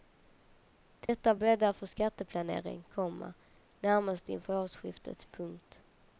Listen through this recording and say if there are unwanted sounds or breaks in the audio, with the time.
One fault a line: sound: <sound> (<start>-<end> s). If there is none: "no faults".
sound: dropout (1.1-1.1 s)